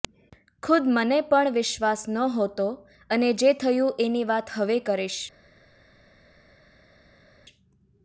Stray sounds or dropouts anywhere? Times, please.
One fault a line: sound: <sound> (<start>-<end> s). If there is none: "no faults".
no faults